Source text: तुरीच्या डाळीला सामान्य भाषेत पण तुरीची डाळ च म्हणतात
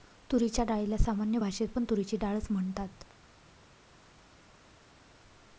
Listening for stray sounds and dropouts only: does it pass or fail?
pass